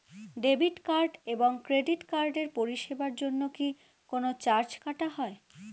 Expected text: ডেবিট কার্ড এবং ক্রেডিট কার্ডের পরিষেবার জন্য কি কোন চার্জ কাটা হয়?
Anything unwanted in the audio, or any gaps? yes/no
no